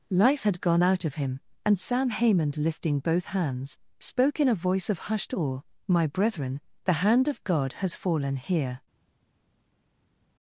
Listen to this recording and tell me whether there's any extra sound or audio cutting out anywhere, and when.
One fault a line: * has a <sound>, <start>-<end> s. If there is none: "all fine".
all fine